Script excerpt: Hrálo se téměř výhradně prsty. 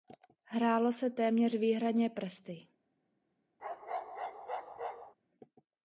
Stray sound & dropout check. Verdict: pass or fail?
fail